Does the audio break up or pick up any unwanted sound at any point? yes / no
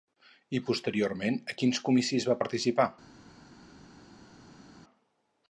no